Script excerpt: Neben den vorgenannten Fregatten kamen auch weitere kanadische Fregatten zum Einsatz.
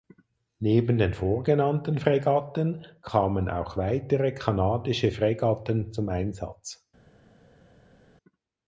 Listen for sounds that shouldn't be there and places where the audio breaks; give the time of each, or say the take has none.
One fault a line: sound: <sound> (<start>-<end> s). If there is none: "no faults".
no faults